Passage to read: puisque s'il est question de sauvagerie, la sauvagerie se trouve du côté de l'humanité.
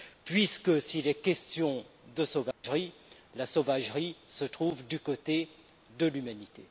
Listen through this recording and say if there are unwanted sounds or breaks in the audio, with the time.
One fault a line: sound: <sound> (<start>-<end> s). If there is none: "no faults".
sound: dropout (2.5-2.6 s)